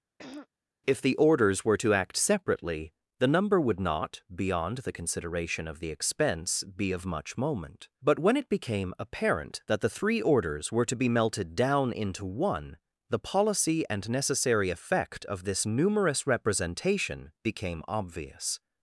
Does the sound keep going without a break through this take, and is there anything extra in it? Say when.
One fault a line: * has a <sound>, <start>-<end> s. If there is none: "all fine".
* has a throat clearing, 0.2-0.5 s